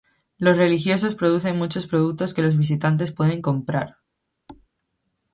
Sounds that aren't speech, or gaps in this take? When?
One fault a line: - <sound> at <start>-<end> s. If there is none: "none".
- thud at 4.5-4.7 s